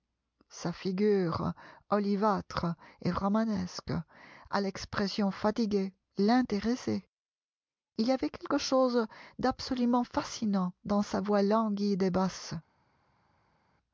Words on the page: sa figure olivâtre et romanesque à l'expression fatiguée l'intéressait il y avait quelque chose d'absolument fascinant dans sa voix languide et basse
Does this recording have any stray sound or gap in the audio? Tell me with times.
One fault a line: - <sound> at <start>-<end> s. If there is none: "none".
none